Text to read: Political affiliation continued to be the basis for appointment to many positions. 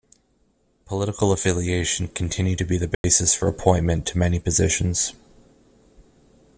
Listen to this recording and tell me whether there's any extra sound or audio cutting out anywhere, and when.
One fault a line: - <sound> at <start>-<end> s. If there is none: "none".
- dropout at 2.9-3.0 s